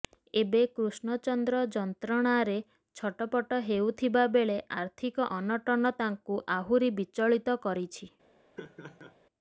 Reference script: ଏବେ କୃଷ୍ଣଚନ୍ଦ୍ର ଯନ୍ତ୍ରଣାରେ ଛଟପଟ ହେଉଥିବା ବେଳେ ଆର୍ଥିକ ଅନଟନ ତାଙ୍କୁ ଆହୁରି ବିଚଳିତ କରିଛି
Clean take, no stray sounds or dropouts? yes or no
no